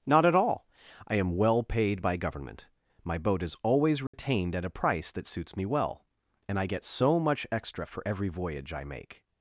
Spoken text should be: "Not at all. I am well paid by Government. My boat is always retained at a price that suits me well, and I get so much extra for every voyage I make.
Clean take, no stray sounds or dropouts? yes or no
no